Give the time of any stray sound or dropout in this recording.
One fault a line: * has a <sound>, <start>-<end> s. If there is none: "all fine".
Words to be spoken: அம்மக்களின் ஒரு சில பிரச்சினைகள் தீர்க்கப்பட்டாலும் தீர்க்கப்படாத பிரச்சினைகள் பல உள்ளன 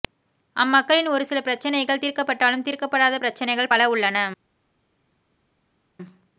all fine